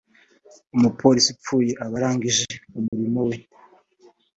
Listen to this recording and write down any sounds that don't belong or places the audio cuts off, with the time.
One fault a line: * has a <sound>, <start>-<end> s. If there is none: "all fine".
* has a dropout, 2.9-2.9 s